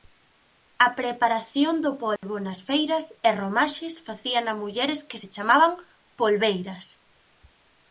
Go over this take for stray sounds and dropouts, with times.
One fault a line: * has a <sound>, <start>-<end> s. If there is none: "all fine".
* has a dropout, 2.2-2.2 s